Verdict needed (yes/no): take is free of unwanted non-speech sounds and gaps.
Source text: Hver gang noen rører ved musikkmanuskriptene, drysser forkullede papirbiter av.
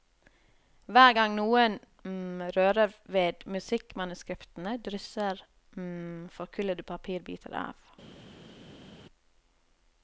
yes